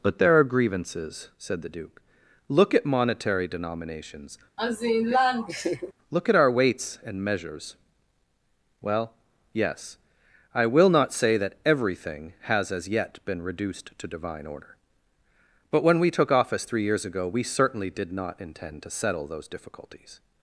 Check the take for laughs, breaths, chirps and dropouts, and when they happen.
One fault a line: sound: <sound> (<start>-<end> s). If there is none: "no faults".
sound: laugh (4.6-5.9 s)